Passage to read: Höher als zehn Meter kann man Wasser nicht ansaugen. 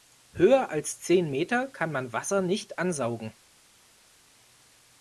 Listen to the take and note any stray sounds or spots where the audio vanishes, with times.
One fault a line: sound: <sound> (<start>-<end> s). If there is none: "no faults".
no faults